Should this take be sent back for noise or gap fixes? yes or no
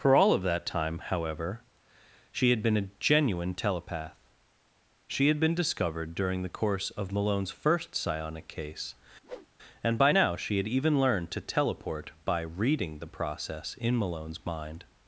yes